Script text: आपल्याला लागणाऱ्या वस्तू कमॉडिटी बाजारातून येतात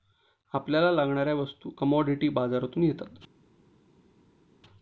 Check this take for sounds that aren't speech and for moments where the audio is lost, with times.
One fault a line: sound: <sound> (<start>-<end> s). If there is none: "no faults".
no faults